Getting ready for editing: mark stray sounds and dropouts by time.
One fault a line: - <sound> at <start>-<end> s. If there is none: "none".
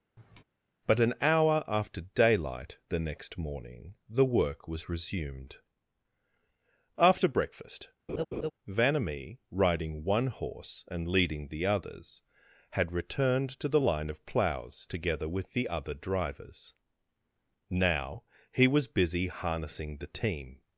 - sigh at 0.2-0.4 s
- laugh at 8.1-8.5 s